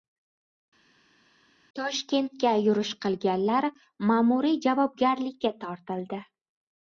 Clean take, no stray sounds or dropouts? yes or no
yes